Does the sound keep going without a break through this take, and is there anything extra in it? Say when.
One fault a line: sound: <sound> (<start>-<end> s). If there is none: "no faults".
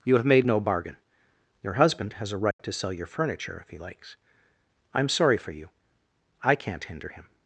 sound: dropout (2.5-2.6 s)